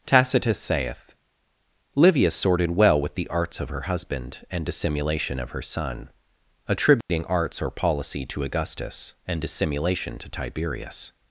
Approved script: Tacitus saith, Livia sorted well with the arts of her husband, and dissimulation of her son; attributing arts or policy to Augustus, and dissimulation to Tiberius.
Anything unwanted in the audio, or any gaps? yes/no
yes